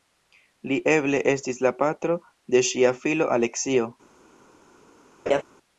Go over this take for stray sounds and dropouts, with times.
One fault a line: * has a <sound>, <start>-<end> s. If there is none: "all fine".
* has a laugh, 5.3-5.4 s